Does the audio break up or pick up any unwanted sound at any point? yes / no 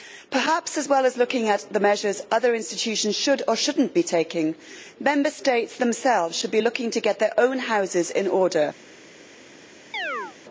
yes